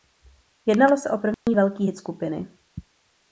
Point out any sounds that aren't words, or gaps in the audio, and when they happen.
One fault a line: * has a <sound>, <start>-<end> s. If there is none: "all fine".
* has a dropout, 1.3-1.5 s